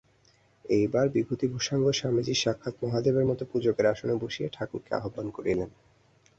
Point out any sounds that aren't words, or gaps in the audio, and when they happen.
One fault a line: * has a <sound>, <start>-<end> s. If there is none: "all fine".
all fine